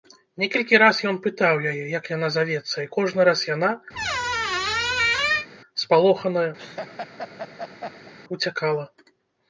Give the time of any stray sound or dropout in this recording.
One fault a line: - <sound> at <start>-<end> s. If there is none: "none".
- squeak at 3.9-5.5 s
- laugh at 6.6-8.1 s